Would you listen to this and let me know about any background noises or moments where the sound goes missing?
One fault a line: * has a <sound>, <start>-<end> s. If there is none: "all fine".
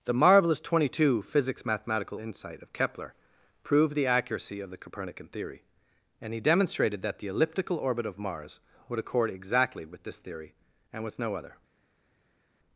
all fine